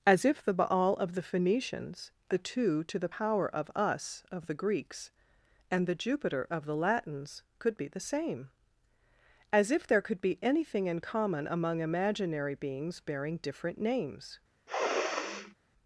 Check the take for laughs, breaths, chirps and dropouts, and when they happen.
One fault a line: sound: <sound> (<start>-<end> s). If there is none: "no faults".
sound: sniff (14.7-15.5 s)